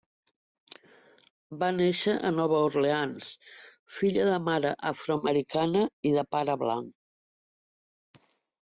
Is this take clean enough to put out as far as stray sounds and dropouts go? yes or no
yes